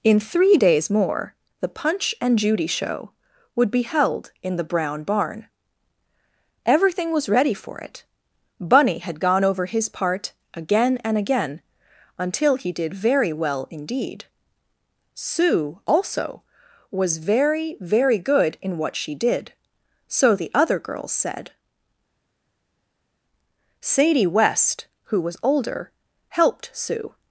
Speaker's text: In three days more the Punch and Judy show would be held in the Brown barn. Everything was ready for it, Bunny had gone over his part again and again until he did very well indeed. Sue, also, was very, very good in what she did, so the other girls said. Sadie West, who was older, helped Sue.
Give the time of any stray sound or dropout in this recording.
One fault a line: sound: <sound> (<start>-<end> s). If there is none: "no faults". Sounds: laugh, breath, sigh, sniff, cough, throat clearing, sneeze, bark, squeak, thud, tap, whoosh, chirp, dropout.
no faults